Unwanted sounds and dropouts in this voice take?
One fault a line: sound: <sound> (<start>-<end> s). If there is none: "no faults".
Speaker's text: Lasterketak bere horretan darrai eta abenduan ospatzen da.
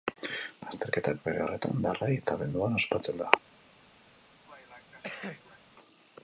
sound: cough (4.5-5.6 s)